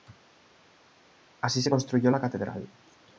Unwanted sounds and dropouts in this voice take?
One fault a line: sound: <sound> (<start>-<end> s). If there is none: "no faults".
no faults